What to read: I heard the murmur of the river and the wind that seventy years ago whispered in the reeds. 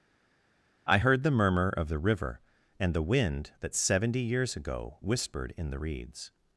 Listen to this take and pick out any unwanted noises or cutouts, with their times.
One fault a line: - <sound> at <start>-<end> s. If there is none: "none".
none